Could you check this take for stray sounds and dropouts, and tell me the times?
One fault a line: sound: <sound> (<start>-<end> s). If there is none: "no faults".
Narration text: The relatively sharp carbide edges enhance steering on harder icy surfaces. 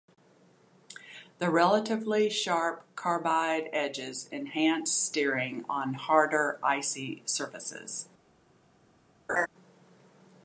sound: laugh (9.3-9.5 s)